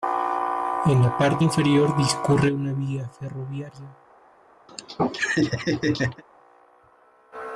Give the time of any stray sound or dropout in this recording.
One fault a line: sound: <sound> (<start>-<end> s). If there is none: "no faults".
sound: laugh (4.7-6.2 s)